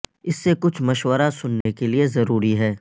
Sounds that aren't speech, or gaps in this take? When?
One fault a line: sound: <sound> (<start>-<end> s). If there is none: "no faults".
sound: dropout (1.6-1.7 s)